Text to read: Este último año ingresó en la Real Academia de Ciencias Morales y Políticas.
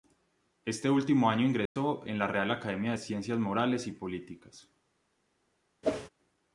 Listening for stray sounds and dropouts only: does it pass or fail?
fail